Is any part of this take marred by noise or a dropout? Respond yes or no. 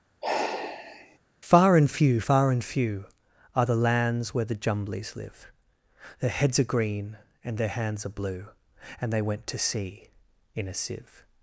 yes